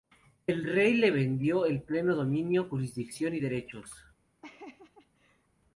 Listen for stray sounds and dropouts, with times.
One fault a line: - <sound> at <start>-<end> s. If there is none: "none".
- laugh at 4.4-5.5 s